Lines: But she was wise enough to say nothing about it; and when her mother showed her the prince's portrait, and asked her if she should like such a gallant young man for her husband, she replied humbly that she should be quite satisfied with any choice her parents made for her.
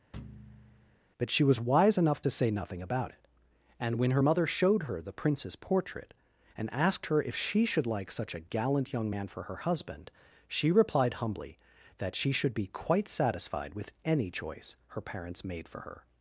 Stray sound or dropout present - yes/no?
yes